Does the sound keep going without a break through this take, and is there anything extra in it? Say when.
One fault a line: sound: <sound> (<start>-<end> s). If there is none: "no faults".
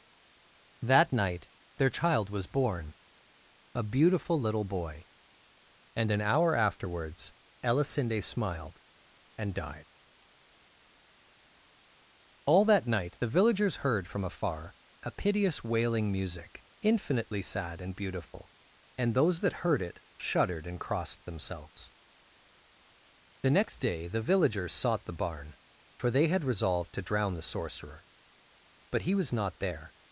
no faults